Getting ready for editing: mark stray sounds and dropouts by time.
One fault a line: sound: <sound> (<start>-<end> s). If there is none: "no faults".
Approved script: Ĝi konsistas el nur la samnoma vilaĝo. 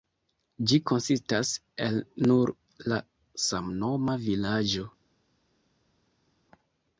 no faults